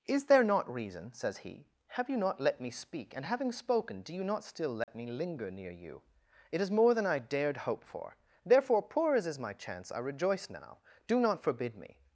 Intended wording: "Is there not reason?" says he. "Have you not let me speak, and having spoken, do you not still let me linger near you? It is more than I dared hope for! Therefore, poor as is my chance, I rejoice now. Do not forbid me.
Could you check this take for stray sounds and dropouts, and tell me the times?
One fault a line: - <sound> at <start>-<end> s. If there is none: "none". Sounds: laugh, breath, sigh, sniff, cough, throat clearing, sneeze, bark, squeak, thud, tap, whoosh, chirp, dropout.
- dropout at 4.8-4.9 s